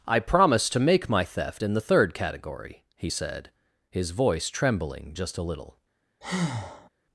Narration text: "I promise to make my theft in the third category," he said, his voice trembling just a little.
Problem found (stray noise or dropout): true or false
true